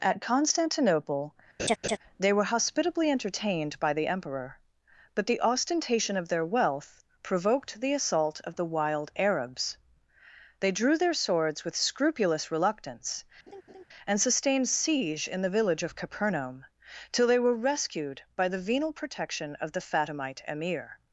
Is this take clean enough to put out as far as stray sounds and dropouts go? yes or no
no